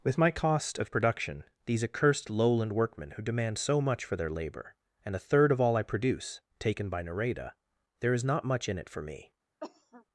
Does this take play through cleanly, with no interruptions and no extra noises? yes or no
no